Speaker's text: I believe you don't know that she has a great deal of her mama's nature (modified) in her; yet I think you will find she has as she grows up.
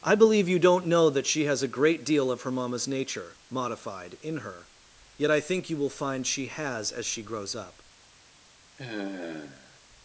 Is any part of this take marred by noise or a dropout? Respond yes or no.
yes